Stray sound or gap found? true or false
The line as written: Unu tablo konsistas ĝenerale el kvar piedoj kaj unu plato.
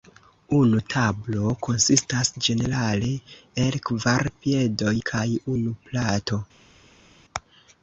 false